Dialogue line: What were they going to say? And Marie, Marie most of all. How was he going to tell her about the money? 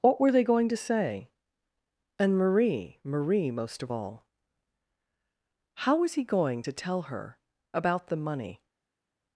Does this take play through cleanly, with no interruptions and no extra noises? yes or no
yes